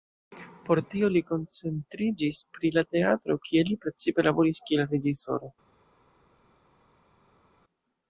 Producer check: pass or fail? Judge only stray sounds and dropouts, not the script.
pass